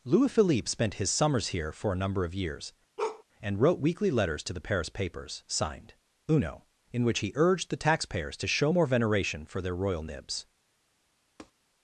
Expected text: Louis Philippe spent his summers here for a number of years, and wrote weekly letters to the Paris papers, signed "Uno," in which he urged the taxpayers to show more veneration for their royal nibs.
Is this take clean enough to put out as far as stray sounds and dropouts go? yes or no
no